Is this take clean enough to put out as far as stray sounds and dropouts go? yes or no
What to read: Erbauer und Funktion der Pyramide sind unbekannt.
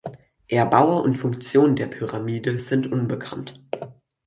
yes